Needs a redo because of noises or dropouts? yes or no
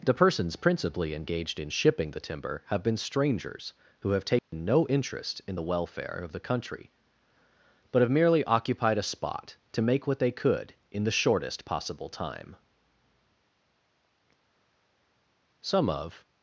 yes